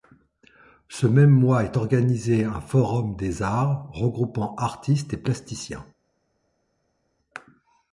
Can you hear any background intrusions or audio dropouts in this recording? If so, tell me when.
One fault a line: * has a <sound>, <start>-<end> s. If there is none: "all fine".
all fine